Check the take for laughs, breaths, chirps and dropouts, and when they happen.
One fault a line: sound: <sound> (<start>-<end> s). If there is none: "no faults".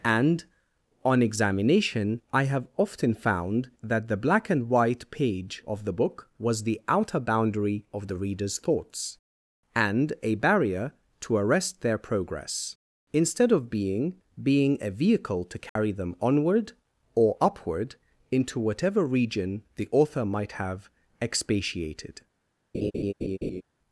sound: dropout (15.7-15.8 s)
sound: laugh (22.7-23.6 s)